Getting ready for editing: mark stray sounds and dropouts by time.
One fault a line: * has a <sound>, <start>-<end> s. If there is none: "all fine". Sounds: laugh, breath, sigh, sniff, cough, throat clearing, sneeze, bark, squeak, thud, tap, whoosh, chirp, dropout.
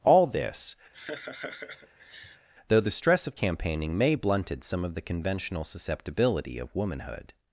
* has a laugh, 0.9-2.5 s